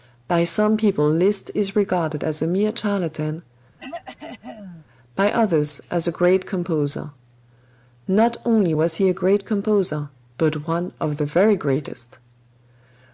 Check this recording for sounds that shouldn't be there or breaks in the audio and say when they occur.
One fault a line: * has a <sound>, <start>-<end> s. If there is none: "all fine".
* has a throat clearing, 3.8-4.9 s